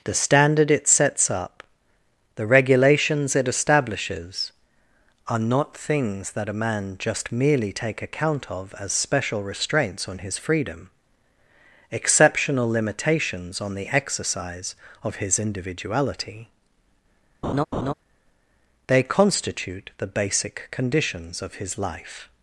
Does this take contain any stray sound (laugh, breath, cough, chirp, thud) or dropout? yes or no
yes